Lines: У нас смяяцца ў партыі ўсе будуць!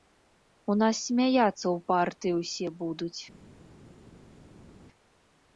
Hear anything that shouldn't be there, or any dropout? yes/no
no